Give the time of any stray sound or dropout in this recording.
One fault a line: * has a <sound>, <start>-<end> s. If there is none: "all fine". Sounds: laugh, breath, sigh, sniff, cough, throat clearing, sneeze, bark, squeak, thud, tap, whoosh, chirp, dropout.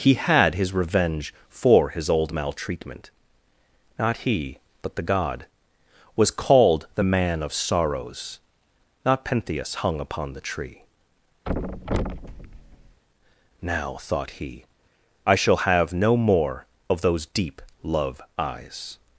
* has a thud, 11.5-13.0 s